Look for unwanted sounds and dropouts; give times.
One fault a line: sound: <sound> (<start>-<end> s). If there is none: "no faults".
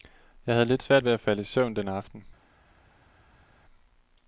no faults